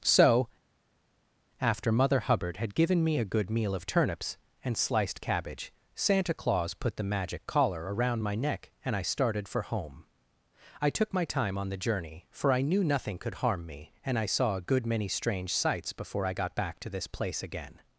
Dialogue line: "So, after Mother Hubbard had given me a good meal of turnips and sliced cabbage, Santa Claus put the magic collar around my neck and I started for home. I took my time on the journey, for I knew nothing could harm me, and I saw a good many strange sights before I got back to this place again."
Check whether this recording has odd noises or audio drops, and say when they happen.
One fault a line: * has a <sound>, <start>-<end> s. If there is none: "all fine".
all fine